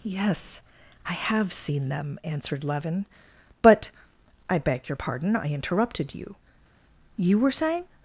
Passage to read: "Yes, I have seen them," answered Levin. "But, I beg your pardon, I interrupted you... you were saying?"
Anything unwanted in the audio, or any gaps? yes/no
no